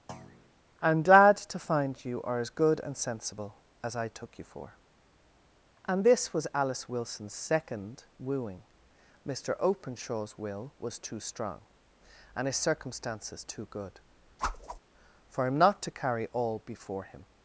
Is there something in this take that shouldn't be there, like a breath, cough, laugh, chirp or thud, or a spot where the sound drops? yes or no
yes